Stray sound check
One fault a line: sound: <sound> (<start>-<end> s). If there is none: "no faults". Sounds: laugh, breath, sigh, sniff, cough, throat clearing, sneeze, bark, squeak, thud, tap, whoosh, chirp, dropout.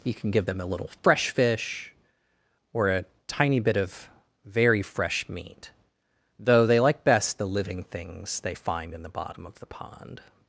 no faults